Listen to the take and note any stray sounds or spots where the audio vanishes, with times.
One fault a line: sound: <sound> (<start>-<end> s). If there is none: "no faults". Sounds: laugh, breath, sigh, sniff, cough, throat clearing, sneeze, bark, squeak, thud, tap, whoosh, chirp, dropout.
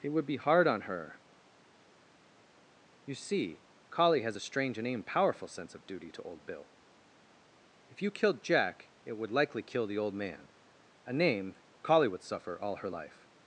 no faults